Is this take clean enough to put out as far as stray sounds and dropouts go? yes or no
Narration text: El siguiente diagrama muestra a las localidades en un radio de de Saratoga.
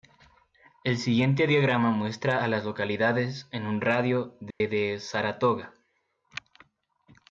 no